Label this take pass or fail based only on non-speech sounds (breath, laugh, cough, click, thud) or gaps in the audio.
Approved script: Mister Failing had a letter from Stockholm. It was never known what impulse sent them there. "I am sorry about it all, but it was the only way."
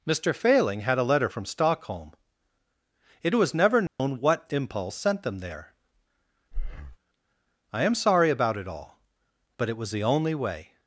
fail